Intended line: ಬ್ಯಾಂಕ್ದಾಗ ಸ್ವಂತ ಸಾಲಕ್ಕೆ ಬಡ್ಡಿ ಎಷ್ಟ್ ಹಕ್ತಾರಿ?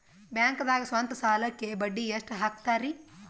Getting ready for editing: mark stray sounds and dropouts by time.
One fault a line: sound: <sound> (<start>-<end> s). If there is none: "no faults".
no faults